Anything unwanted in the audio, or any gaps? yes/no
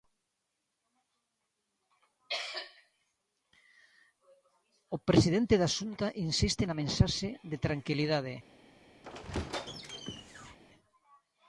yes